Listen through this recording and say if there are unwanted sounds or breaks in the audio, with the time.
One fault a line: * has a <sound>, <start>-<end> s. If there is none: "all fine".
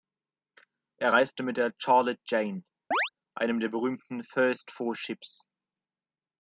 * has a chirp, 2.9-3.1 s